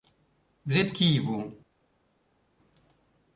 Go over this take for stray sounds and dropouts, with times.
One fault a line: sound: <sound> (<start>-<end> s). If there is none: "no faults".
no faults